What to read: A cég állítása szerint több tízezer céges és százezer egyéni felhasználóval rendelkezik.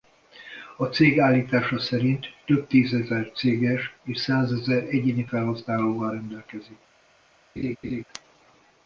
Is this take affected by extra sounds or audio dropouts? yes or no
yes